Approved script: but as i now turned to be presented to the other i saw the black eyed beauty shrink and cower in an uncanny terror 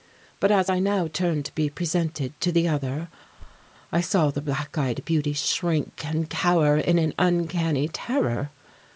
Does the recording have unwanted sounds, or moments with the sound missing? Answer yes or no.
yes